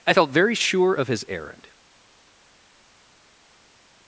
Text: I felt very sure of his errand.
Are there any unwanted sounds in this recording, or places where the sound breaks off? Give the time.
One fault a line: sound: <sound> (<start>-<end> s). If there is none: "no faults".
no faults